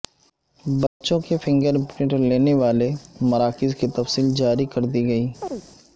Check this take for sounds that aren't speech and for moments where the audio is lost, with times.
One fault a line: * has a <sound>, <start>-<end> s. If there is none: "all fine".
* has a dropout, 0.9-1.0 s
* has a chirp, 5.4-5.6 s